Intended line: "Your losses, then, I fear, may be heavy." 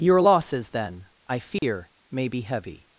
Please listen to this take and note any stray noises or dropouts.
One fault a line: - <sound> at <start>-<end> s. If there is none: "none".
- dropout at 1.6-1.6 s